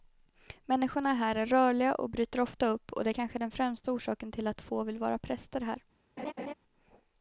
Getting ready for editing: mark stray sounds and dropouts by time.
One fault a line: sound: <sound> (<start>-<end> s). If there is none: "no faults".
sound: laugh (6.2-6.5 s)